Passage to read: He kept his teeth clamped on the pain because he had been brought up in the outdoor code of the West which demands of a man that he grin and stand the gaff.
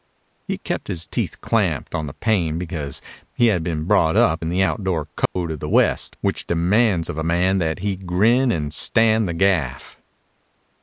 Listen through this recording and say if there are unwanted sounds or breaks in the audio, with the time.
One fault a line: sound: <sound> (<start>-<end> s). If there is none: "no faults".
sound: dropout (5.3-5.4 s)